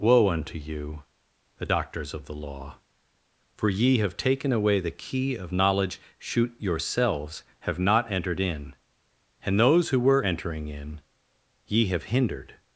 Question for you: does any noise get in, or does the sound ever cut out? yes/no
no